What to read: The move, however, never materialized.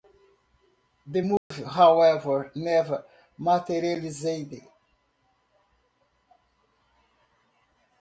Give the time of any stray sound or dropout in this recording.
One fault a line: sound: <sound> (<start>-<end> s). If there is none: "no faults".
sound: dropout (1.4-1.5 s)